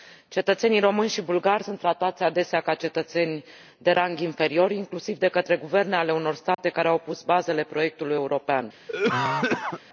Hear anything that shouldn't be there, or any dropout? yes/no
yes